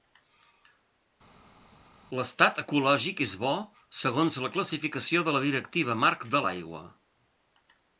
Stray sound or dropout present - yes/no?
no